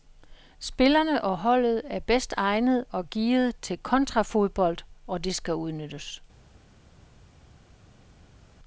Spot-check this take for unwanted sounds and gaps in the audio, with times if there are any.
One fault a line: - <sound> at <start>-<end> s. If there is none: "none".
none